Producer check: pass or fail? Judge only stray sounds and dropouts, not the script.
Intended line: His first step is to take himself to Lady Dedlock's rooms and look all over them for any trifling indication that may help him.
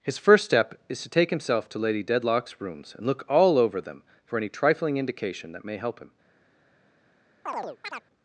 fail